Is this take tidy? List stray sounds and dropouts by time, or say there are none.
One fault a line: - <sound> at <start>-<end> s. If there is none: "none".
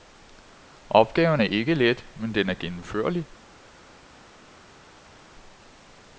none